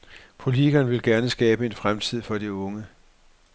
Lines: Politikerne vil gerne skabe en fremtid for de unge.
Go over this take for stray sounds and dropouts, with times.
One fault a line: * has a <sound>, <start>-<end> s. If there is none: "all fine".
all fine